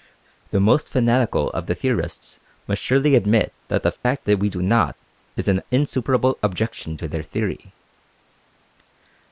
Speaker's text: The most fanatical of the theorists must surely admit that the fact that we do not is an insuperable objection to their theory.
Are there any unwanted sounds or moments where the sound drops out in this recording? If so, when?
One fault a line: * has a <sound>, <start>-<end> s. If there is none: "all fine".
* has a dropout, 4.0-4.0 s